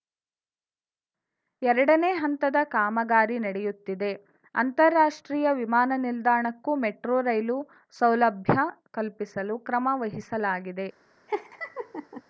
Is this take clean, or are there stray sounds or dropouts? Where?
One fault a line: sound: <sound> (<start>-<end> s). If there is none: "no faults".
sound: laugh (11.3-12.2 s)